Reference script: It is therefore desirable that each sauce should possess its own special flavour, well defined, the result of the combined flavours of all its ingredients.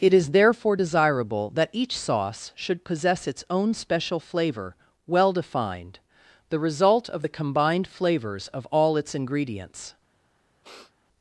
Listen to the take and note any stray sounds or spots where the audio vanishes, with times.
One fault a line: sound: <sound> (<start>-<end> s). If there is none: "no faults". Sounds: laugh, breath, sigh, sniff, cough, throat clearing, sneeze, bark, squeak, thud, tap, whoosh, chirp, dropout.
sound: sniff (10.6-10.9 s)